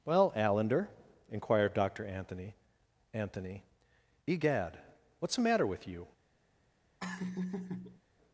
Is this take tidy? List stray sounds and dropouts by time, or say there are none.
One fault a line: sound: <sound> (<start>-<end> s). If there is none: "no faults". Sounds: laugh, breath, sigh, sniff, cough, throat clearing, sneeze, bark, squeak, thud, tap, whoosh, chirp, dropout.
sound: laugh (7.0-8.0 s)